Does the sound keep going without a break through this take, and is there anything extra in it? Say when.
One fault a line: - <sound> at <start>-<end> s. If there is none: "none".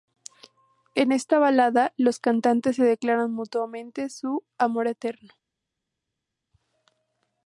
none